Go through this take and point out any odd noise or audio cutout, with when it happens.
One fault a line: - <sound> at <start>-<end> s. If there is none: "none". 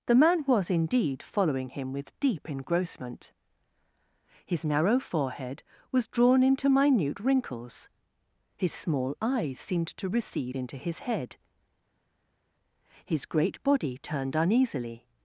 none